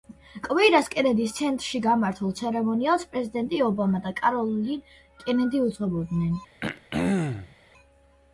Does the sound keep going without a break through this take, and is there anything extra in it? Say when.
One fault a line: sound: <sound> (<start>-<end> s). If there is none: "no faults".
sound: throat clearing (6.6-7.6 s)